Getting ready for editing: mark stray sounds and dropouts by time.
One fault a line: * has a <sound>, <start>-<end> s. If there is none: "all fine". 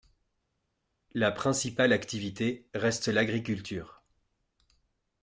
all fine